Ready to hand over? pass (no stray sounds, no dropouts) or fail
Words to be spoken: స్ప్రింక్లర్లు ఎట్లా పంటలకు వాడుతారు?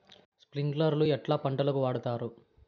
pass